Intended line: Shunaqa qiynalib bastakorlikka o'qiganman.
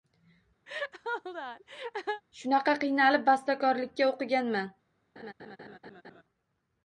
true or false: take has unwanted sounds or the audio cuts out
true